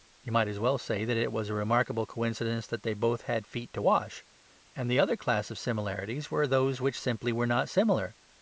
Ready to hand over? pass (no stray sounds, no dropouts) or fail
pass